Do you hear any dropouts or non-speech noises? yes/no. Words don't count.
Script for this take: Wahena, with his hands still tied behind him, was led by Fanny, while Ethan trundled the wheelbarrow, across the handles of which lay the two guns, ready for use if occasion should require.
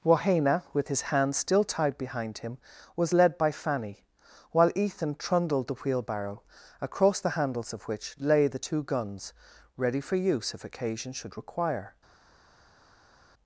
no